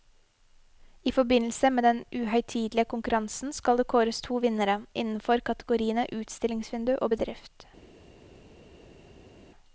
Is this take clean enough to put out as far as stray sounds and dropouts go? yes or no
yes